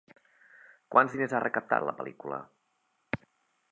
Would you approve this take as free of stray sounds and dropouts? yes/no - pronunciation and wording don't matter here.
yes